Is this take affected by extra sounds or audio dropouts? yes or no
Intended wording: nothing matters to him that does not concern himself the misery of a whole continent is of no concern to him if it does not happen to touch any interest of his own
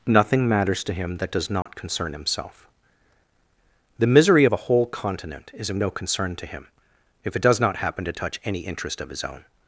yes